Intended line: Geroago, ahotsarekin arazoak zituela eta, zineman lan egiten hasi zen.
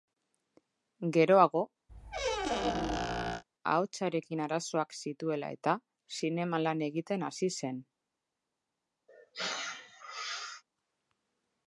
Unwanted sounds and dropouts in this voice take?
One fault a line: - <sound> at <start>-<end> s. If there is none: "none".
- squeak at 1.9-3.4 s
- sneeze at 9.1-10.6 s